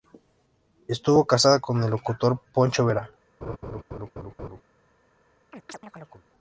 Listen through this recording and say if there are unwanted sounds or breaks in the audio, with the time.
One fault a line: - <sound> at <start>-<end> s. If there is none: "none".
- laugh at 3.4-4.6 s
- chirp at 5.5-6.3 s